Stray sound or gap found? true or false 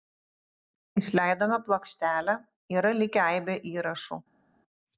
false